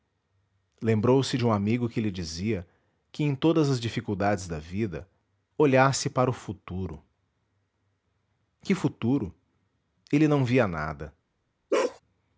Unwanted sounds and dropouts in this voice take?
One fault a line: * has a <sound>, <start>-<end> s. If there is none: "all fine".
* has a bark, 11.7-12.0 s